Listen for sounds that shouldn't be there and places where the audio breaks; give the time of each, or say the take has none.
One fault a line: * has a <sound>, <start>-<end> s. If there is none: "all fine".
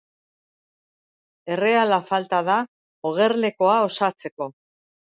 all fine